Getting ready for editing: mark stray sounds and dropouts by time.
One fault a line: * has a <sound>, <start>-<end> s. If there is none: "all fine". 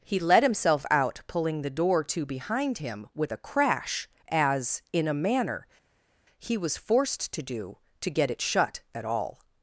all fine